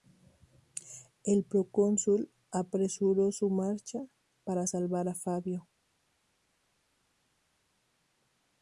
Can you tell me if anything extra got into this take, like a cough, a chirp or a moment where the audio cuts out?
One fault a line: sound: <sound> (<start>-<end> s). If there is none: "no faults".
no faults